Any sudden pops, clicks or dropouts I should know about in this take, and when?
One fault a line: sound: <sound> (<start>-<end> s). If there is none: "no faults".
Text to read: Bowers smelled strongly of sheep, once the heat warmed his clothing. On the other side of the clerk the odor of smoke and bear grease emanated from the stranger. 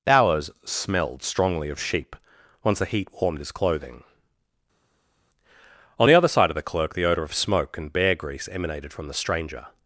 no faults